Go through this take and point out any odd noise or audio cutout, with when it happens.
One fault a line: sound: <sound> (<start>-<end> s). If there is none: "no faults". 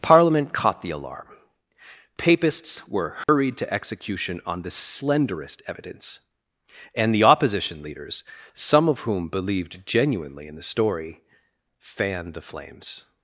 sound: dropout (3.2-3.3 s)